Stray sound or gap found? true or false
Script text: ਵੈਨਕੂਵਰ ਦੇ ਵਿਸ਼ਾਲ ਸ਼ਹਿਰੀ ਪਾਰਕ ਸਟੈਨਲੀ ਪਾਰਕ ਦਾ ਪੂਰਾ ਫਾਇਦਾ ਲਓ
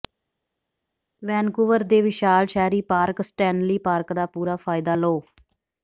false